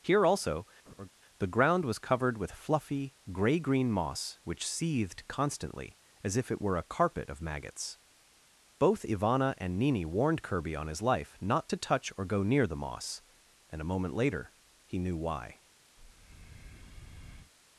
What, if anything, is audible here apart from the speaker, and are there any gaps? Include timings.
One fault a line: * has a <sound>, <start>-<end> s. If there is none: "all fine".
* has a laugh, 0.9-1.1 s
* has a breath, 16.0-17.5 s